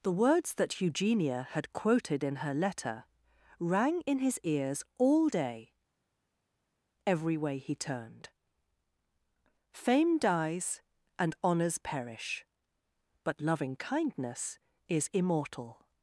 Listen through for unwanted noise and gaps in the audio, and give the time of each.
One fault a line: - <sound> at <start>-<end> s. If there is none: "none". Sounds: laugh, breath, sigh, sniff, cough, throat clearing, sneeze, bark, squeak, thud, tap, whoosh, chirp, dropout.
none